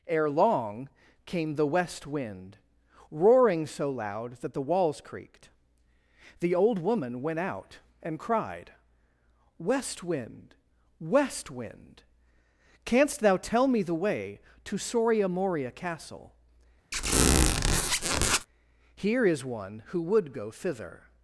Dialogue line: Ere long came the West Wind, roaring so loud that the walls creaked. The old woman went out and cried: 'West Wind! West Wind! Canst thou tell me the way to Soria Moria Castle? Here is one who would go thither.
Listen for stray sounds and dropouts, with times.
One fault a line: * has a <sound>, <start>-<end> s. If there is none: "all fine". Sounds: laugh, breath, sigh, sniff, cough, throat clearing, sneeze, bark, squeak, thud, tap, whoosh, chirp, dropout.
* has a squeak, 16.9-18.5 s